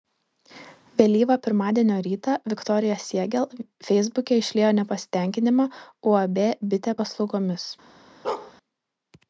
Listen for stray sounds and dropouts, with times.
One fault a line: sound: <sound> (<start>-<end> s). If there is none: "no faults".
sound: bark (8.2-8.5 s)